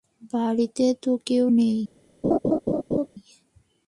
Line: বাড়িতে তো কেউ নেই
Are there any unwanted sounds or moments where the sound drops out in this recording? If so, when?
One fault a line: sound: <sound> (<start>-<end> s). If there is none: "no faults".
sound: laugh (2.2-3.1 s)